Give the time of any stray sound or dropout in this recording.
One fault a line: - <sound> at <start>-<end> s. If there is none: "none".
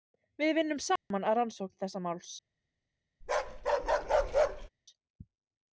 - dropout at 1.0-1.1 s
- bark at 3.2-4.7 s